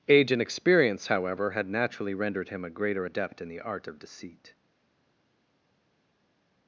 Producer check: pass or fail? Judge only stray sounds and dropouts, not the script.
pass